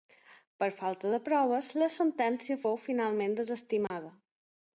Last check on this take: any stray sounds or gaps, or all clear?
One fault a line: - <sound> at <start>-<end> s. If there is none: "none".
- dropout at 3.9-3.9 s